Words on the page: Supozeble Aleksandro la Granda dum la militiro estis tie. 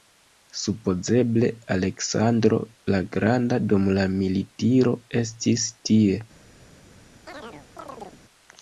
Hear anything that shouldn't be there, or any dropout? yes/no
yes